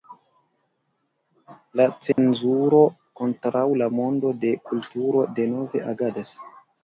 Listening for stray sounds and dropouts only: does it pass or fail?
fail